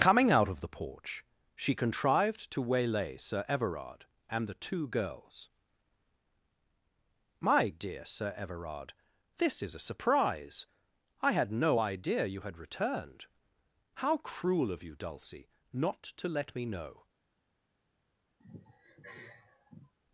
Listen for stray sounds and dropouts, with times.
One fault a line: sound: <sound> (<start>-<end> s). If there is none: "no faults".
sound: sigh (18.4-19.9 s)